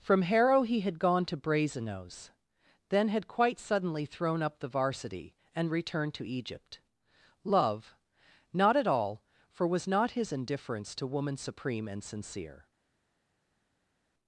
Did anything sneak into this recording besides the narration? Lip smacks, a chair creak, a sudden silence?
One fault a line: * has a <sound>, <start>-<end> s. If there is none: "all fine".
all fine